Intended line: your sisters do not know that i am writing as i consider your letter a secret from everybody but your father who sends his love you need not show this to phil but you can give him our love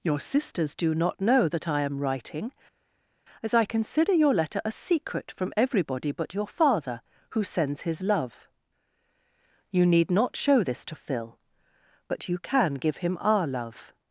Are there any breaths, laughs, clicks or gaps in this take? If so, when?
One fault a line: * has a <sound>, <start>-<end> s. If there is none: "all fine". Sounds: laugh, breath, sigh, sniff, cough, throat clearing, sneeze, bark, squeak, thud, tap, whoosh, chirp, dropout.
all fine